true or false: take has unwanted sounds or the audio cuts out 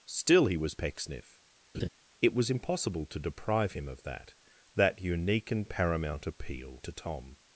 true